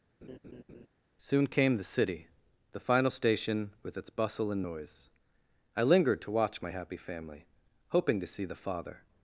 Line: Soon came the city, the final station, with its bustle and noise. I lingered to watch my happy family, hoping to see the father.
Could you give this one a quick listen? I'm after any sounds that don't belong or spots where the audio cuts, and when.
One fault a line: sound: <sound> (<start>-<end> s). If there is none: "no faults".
sound: laugh (0.2-0.9 s)